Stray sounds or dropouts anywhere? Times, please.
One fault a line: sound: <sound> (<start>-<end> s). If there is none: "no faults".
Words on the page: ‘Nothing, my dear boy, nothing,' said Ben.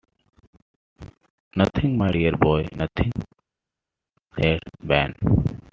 no faults